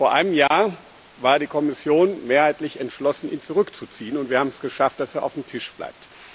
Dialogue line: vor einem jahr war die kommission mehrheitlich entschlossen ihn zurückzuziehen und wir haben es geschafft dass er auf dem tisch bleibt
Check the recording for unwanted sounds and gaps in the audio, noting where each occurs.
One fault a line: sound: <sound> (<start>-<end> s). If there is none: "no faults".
sound: dropout (0.5-0.5 s)